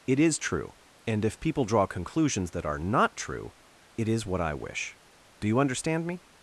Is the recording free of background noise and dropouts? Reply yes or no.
yes